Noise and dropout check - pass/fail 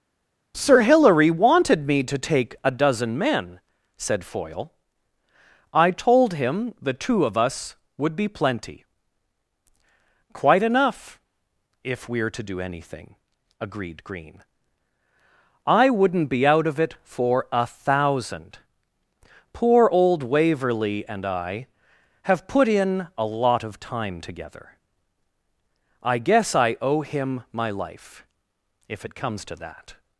pass